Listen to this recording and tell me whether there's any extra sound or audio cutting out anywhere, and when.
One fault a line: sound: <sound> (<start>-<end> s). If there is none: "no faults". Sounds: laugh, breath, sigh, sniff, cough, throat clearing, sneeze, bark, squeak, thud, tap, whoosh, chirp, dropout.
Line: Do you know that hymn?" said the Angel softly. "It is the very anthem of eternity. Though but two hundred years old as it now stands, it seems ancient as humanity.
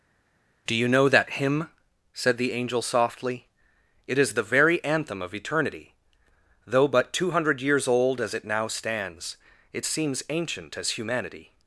no faults